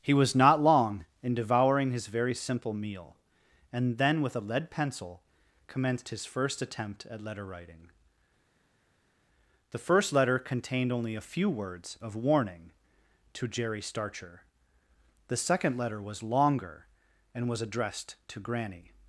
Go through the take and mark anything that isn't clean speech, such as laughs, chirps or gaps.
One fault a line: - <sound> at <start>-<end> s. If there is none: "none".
none